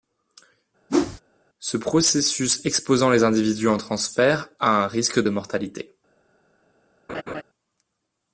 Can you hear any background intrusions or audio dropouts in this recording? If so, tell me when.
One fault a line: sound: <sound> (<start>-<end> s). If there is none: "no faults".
sound: whoosh (0.9-1.2 s)
sound: laugh (7.1-7.4 s)